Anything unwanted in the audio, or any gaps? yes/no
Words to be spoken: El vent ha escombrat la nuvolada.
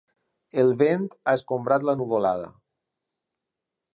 no